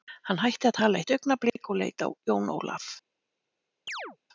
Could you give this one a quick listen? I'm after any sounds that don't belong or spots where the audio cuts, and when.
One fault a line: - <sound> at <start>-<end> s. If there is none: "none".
- chirp at 3.9-4.2 s